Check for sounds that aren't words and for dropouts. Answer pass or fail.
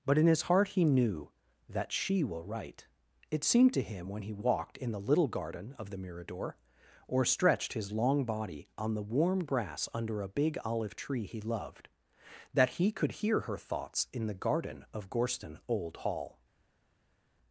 pass